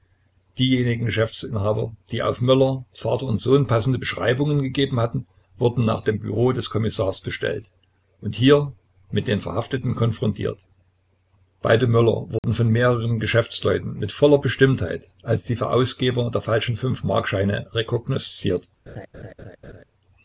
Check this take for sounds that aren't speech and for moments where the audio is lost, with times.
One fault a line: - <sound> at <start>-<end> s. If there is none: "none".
- dropout at 12.4-12.4 s
- laugh at 18.9-19.8 s